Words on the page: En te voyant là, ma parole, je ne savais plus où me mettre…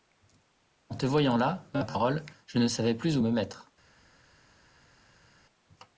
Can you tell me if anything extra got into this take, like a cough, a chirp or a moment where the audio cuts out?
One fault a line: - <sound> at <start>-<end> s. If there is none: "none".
none